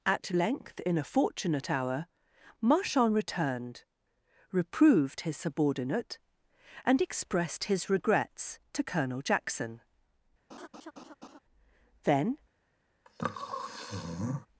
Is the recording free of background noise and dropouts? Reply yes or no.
no